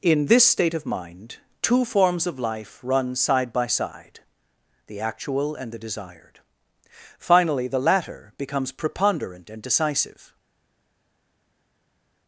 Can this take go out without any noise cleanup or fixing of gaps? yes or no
yes